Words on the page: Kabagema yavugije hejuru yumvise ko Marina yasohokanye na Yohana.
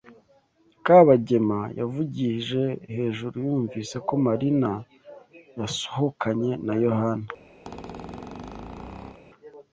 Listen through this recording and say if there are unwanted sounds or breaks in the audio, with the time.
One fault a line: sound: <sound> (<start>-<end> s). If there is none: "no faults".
sound: squeak (7.6-9.2 s)